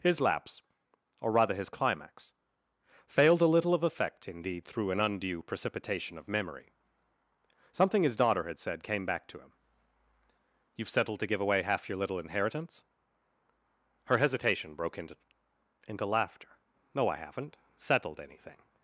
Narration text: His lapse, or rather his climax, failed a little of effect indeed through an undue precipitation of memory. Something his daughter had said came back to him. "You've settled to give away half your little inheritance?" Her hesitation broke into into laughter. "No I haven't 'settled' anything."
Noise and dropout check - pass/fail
pass